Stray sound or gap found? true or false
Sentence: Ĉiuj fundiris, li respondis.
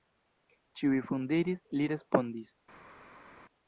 false